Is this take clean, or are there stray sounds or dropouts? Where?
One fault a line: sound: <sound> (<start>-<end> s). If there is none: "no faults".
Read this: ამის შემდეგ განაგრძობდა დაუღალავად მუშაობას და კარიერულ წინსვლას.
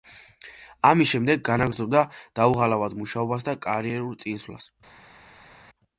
no faults